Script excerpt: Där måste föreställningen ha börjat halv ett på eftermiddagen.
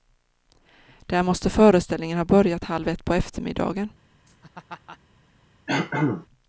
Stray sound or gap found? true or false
true